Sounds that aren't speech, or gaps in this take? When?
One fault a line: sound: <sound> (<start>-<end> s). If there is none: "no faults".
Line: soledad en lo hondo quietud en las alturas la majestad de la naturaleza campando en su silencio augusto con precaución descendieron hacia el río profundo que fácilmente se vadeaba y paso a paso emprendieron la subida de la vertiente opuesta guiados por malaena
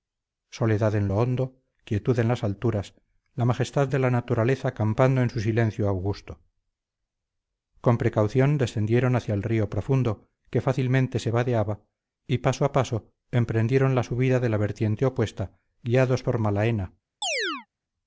sound: chirp (17.2-17.7 s)